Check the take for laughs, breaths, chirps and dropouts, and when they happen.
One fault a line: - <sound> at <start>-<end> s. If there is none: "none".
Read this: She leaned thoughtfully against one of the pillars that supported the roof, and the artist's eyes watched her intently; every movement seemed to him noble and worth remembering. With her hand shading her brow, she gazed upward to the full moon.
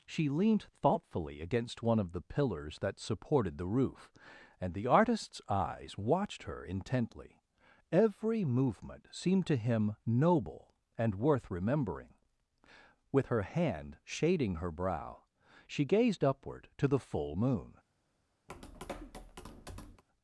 - tap at 18.5-20.0 s